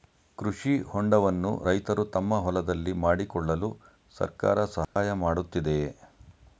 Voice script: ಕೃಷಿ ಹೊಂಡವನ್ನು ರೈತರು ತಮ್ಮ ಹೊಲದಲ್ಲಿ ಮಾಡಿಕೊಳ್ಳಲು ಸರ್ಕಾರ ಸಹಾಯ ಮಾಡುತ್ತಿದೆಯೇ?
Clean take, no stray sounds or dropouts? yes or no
no